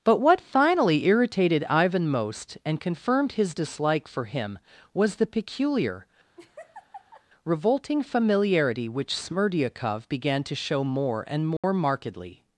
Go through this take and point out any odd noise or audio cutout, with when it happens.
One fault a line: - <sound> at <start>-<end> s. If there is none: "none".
- laugh at 6.4-7.2 s
- dropout at 11.6-11.6 s